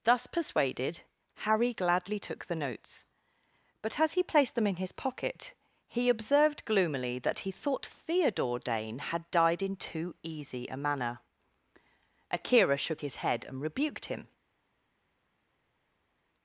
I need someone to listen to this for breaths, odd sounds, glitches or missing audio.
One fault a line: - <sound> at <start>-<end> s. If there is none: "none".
none